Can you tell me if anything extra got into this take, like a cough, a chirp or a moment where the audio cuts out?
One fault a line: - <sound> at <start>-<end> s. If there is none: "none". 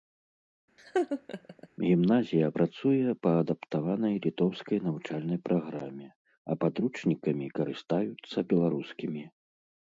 - laugh at 0.8-1.7 s